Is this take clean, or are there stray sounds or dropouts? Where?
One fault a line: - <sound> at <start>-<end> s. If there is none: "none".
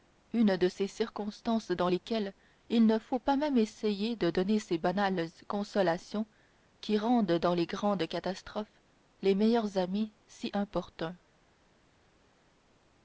none